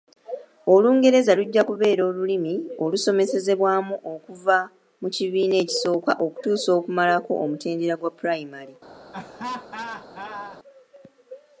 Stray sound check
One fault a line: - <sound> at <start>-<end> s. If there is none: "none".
- laugh at 9.1-10.6 s